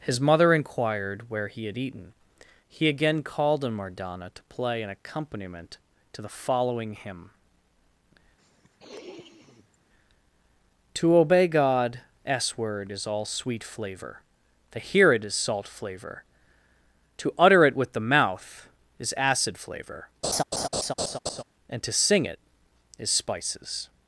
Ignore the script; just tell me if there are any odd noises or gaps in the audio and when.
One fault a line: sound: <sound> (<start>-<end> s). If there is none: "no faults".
sound: sniff (8.4-9.8 s)
sound: laugh (20.2-21.4 s)